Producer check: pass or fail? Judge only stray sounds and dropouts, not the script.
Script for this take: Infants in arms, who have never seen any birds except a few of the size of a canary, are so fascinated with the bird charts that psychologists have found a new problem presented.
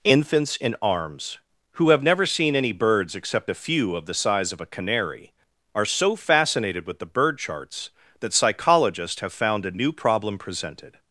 pass